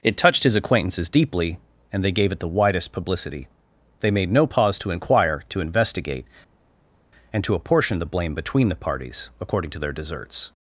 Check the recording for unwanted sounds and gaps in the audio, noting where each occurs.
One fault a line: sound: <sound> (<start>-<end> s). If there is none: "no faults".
no faults